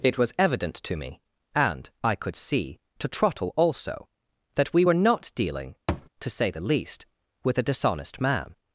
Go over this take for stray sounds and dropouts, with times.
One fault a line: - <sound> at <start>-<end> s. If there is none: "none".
- thud at 5.9-6.1 s